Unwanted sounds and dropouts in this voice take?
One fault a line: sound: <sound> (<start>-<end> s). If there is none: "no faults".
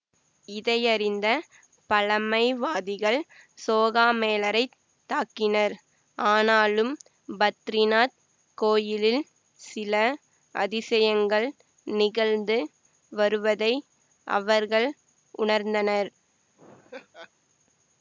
sound: laugh (16.6-17.3 s)